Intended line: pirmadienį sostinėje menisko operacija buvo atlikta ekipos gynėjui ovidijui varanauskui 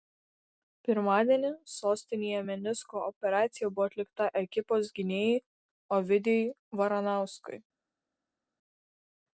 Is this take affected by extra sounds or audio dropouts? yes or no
no